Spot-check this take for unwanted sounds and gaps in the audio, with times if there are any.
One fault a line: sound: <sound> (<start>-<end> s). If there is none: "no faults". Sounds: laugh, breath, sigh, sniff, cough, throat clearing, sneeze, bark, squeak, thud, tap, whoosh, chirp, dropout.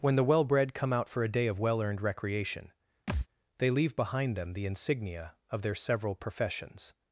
sound: thud (3.1-3.3 s)